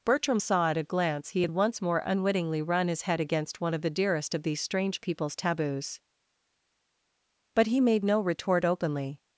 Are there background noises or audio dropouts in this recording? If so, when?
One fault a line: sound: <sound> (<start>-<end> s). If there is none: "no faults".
no faults